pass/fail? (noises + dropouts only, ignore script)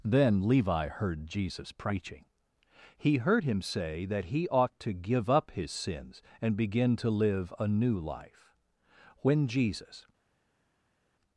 pass